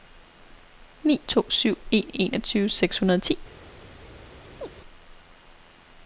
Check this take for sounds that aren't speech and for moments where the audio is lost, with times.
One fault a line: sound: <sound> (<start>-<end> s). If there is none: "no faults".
sound: chirp (4.6-4.7 s)